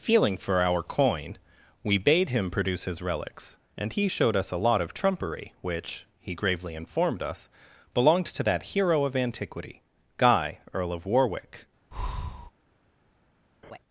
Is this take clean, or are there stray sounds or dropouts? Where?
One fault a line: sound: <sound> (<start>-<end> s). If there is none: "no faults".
sound: breath (11.9-12.5 s)
sound: laugh (13.6-13.8 s)